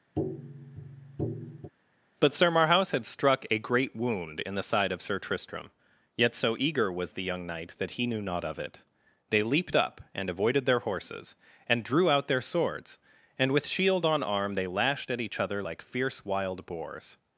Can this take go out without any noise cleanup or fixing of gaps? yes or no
no